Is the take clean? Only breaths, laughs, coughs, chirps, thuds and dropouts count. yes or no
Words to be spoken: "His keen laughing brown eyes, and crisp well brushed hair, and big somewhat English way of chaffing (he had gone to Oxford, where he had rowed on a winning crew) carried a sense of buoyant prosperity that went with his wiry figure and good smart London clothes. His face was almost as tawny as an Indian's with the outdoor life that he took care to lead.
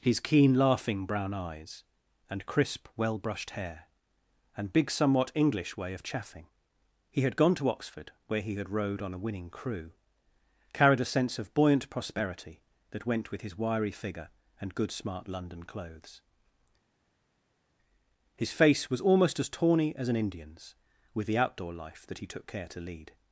yes